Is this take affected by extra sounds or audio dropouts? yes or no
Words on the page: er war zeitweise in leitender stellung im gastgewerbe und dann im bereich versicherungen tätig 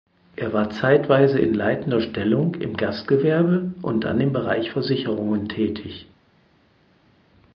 no